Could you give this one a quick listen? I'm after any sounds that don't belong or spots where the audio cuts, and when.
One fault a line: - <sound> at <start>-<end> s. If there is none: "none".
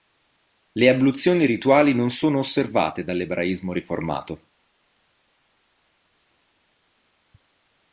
none